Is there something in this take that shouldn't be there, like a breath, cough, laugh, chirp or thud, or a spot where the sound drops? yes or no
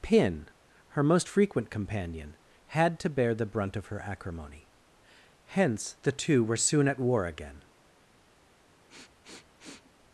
yes